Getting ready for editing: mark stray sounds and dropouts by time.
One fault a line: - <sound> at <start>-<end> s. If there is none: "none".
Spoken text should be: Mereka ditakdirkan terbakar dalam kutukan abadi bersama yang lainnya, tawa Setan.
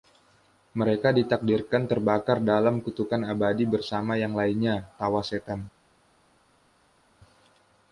none